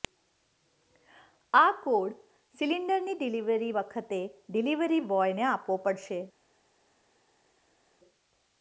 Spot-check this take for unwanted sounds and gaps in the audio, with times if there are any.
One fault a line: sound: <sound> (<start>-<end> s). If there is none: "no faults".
no faults